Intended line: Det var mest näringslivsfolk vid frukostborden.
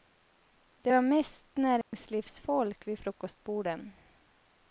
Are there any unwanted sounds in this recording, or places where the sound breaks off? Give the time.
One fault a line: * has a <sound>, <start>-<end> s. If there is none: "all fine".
* has a dropout, 1.8-1.9 s